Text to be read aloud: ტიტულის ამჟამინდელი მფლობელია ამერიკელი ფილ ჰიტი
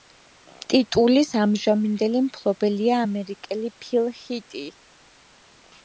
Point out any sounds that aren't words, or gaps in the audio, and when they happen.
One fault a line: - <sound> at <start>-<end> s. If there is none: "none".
none